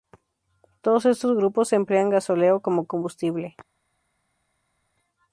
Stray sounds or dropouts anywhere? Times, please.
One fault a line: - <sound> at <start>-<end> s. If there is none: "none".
none